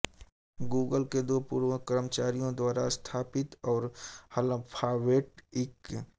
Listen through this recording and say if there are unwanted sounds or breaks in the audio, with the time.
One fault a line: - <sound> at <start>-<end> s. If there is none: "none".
none